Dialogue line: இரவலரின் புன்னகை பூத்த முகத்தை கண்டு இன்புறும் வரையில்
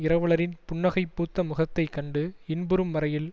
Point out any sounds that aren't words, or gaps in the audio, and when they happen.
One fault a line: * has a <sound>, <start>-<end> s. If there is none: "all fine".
all fine